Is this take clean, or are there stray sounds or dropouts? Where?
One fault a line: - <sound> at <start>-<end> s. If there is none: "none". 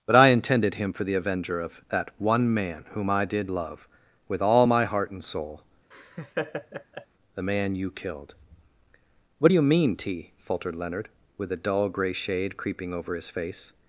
- laugh at 5.9-7.1 s